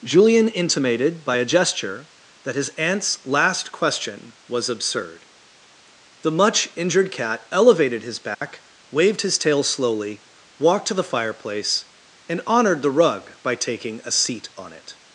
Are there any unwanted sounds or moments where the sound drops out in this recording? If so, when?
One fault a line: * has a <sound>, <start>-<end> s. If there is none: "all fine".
* has a dropout, 8.3-8.4 s